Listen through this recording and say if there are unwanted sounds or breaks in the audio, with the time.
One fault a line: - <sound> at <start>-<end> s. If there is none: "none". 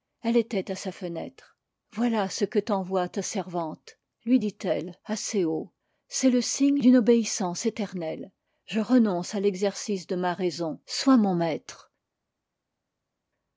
none